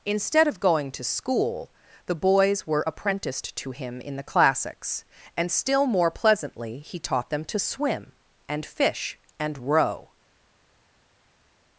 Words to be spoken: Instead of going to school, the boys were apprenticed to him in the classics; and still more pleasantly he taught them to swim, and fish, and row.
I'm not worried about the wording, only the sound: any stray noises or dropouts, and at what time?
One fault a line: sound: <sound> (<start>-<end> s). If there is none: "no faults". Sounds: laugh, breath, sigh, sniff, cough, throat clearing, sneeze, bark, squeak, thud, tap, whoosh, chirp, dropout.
no faults